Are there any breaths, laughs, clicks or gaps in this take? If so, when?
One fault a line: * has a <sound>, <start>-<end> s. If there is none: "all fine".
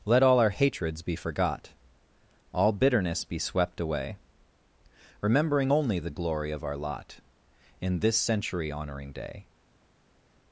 all fine